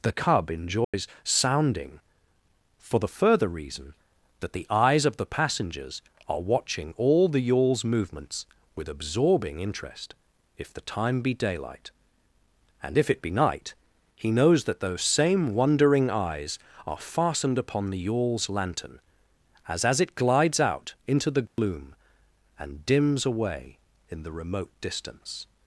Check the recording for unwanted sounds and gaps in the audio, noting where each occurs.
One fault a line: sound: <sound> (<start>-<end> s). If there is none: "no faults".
sound: dropout (0.8-0.9 s)
sound: dropout (21.5-21.6 s)